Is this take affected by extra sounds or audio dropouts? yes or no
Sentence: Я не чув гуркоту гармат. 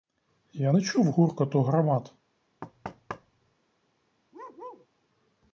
yes